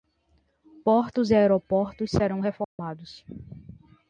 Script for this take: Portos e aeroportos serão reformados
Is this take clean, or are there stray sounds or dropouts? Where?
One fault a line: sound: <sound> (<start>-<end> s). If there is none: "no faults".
sound: dropout (2.6-2.8 s)